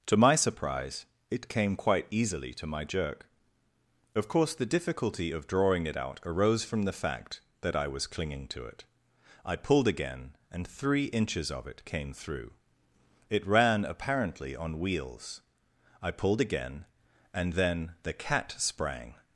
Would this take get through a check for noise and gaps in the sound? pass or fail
pass